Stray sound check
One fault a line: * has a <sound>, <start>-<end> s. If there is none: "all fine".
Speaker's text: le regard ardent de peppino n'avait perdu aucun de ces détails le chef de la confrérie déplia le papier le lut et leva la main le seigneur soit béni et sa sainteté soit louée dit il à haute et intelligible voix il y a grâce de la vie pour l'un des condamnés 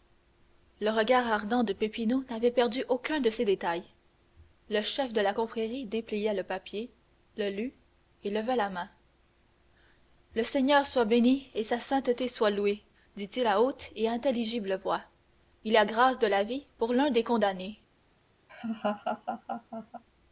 * has a laugh, 18.5-20.0 s